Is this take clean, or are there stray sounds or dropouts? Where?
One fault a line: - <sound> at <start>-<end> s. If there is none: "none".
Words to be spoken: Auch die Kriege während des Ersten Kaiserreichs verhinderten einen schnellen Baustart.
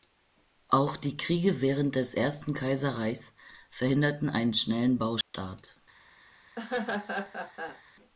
- dropout at 5.2-5.3 s
- laugh at 6.6-7.8 s